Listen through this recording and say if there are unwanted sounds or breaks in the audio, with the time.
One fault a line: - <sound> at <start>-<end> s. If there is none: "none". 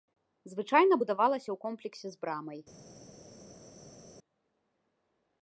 none